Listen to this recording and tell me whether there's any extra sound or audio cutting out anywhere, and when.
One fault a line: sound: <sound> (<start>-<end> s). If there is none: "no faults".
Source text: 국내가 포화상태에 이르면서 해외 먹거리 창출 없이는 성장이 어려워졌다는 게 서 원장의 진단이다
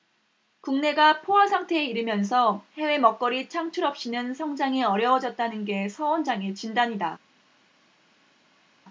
no faults